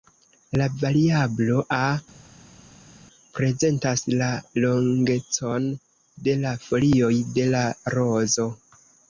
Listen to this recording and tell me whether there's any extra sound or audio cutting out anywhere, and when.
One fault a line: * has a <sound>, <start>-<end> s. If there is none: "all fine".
all fine